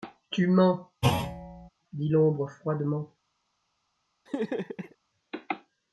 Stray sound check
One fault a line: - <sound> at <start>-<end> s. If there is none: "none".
- thud at 1.0-1.7 s
- laugh at 4.3-5.0 s